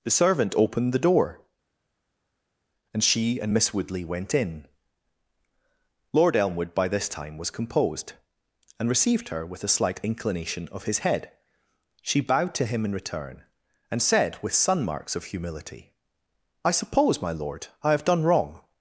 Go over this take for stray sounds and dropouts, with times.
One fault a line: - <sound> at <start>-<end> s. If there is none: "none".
none